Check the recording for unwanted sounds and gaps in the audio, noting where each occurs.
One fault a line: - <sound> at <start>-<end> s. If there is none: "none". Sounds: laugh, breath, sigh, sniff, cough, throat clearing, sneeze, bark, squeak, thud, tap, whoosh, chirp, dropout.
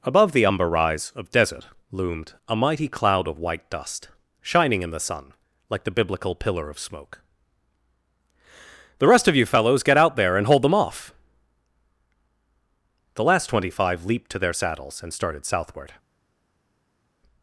none